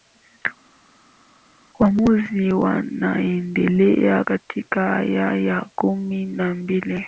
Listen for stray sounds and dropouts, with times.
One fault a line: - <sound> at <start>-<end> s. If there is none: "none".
none